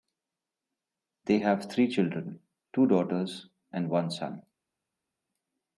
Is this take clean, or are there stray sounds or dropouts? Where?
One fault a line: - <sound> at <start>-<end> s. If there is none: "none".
none